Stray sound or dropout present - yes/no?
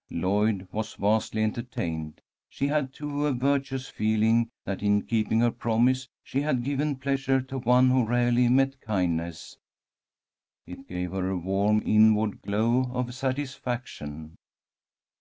no